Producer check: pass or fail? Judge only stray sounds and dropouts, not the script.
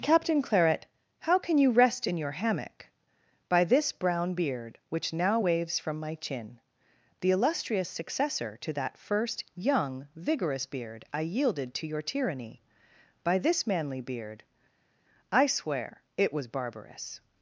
pass